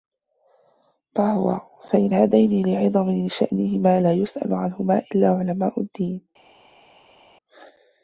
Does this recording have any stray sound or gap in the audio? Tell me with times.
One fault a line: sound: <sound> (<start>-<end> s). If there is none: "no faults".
no faults